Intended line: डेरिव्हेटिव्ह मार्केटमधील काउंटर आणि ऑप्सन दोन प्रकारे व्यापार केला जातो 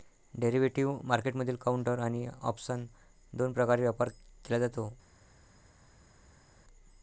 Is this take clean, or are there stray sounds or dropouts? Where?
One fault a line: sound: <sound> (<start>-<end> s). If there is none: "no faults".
no faults